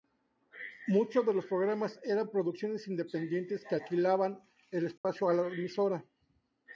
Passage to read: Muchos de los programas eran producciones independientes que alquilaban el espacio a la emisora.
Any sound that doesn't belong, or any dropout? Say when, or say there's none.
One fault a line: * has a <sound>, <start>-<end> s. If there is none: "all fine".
* has a dropout, 5.0-5.0 s